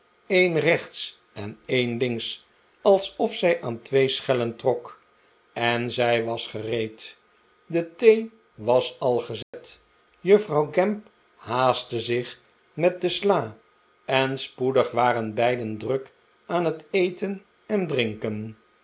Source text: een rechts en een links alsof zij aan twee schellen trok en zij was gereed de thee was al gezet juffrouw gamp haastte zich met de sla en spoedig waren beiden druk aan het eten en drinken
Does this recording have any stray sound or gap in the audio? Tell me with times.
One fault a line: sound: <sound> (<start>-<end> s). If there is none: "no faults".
sound: dropout (9.4-9.5 s)